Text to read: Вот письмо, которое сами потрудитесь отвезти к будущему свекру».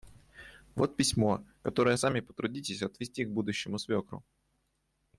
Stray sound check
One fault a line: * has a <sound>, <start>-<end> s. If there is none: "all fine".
all fine